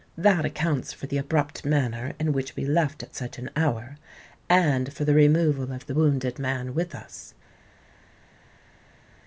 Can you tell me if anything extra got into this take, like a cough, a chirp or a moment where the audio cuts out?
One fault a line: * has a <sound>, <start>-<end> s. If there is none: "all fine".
all fine